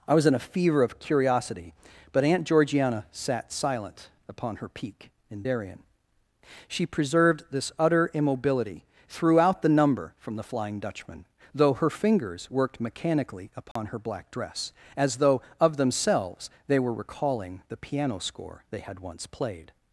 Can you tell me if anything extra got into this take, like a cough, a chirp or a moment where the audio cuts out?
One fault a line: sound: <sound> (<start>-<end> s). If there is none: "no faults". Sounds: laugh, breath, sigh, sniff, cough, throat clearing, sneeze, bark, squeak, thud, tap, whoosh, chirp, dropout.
sound: dropout (13.7-13.8 s)